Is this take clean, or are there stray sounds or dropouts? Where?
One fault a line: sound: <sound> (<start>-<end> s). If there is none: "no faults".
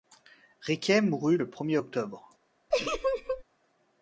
sound: laugh (2.7-3.4 s)